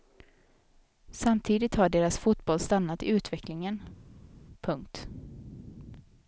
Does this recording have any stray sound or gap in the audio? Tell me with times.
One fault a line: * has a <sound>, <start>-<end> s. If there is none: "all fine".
all fine